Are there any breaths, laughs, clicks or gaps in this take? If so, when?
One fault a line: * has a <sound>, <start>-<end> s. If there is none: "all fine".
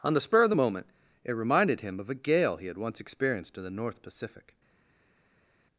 all fine